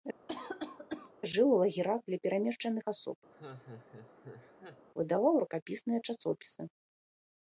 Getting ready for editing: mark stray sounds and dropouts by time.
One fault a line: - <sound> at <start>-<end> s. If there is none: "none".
- cough at 0.3-1.1 s
- laugh at 3.3-4.9 s